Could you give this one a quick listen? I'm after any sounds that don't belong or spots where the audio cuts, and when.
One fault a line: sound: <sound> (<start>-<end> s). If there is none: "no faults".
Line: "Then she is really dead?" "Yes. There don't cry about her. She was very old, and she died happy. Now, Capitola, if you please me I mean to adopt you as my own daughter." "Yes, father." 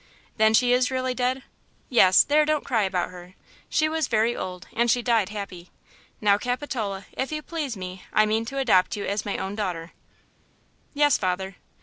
no faults